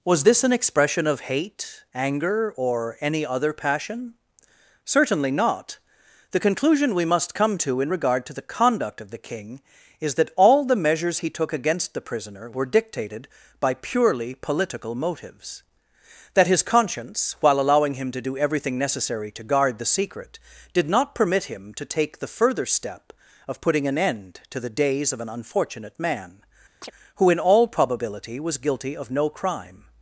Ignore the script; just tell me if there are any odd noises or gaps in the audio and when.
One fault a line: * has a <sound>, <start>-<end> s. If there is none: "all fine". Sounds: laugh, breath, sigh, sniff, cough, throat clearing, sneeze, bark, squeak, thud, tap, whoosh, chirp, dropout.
* has a chirp, 26.8-26.9 s